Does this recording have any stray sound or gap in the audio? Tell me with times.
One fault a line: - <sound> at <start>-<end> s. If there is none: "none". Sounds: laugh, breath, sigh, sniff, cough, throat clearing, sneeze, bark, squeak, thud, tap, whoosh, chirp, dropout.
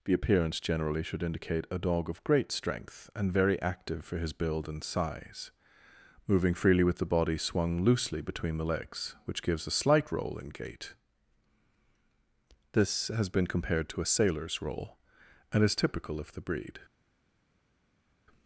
none